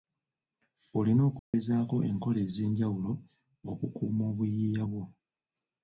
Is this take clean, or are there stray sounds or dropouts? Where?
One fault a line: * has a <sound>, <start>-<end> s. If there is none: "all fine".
* has a dropout, 1.4-1.5 s